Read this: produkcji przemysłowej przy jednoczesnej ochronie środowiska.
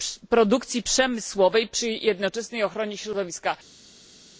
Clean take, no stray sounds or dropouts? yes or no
yes